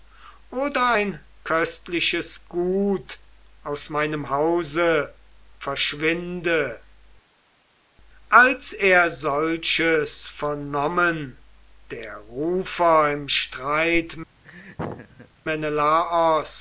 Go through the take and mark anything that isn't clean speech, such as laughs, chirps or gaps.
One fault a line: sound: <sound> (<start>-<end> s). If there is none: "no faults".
sound: laugh (14.4-15.3 s)